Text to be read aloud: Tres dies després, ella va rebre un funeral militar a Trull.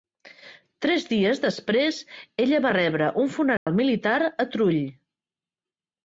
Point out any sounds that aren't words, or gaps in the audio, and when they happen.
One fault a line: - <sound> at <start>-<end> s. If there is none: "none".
- dropout at 3.6-3.7 s